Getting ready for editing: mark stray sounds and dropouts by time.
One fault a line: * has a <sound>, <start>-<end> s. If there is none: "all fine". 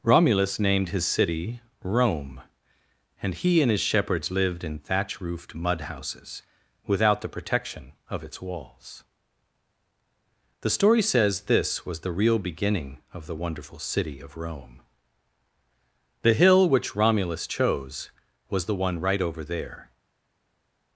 all fine